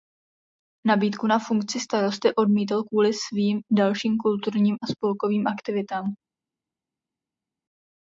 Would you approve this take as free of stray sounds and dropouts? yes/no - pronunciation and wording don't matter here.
yes